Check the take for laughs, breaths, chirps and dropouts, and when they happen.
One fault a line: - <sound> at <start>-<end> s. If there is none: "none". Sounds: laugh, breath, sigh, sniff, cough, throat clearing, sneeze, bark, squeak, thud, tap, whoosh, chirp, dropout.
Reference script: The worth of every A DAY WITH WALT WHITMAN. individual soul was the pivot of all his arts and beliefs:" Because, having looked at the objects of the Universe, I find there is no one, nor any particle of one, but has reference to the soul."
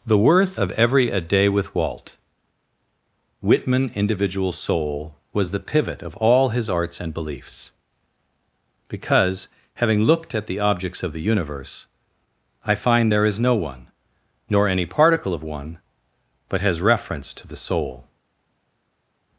none